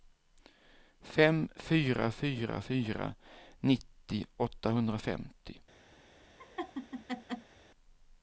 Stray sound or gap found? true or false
true